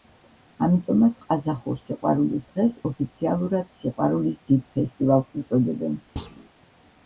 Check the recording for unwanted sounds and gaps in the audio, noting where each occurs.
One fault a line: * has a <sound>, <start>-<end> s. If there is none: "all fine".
* has a thud, 6.2-6.5 s